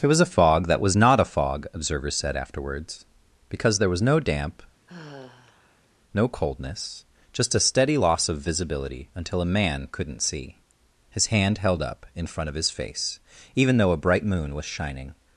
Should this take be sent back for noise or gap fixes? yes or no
yes